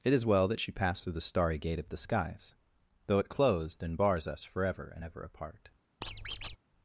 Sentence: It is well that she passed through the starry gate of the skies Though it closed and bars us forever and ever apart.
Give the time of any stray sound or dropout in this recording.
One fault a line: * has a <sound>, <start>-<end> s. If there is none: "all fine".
* has a squeak, 6.0-6.6 s